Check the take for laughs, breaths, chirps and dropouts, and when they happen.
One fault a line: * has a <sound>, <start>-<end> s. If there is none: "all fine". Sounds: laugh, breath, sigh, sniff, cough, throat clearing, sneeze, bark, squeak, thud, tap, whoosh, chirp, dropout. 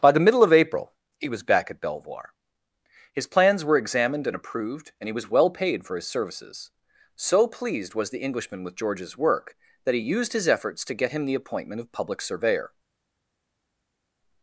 all fine